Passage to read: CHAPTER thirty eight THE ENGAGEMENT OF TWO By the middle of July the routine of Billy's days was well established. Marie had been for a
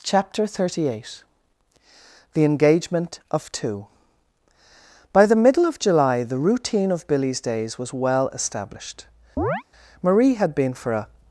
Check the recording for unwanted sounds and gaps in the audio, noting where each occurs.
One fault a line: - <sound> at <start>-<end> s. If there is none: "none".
- chirp at 9.4-9.6 s